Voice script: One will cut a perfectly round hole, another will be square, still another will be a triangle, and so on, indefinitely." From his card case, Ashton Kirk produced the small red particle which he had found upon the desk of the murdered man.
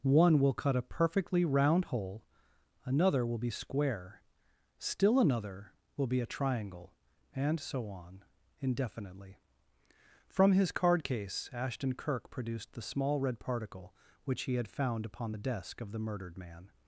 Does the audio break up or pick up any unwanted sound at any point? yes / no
no